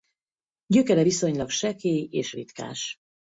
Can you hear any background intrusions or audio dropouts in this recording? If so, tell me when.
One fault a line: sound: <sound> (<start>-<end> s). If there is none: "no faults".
no faults